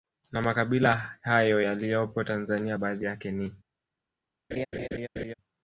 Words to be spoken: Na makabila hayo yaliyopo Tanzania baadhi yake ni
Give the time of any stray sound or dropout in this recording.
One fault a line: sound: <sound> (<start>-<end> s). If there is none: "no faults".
sound: laugh (4.5-5.3 s)